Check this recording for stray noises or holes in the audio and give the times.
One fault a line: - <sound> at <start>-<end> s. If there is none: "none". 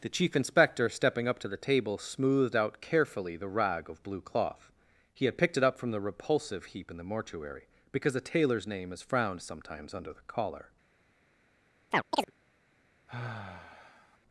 - chirp at 11.9-12.3 s
- sigh at 13.1-14.2 s